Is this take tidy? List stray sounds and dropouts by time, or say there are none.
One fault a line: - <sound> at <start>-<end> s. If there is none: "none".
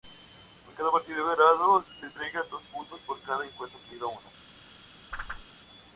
- whoosh at 5.1-5.5 s